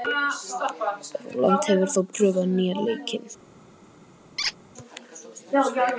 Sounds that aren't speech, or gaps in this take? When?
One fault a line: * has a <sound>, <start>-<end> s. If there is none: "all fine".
* has a squeak, 4.4-4.6 s